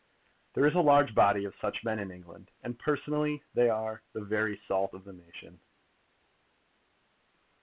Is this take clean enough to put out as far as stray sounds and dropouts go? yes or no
yes